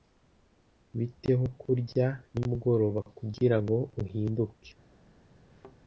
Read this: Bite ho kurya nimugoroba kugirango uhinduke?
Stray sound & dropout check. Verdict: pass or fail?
fail